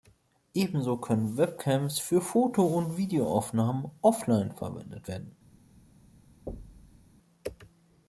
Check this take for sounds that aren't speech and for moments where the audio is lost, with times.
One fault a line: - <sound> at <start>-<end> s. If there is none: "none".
- thud at 6.5-7.0 s